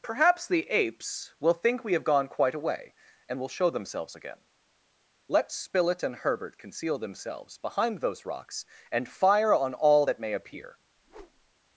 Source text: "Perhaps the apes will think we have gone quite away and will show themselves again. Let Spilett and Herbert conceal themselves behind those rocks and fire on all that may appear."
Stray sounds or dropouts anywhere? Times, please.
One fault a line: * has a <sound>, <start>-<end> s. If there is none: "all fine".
* has a whoosh, 11.0-11.5 s